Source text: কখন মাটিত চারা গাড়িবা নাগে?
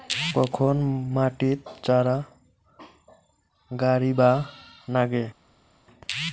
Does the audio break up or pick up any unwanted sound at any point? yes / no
no